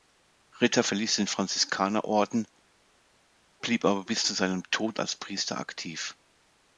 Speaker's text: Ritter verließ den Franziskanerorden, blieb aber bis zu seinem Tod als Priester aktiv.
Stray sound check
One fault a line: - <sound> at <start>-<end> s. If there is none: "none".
none